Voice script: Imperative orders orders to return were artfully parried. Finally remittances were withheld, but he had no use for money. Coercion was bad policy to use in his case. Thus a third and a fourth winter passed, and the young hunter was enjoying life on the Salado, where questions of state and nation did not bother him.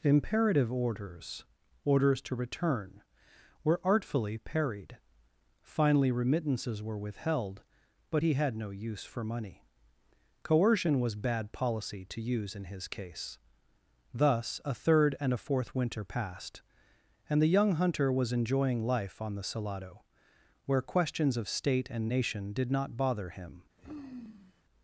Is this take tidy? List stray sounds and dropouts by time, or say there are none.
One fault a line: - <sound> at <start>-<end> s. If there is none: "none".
- sigh at 23.8-24.6 s